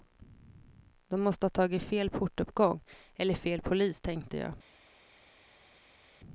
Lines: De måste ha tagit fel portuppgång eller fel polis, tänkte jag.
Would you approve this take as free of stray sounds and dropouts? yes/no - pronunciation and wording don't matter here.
yes